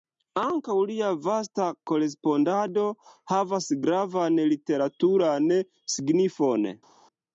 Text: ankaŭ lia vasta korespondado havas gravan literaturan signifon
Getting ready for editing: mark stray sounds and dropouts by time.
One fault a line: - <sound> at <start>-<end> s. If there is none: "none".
none